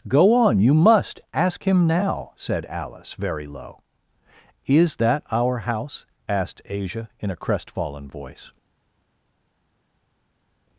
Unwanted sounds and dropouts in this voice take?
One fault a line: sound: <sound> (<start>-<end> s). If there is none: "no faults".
no faults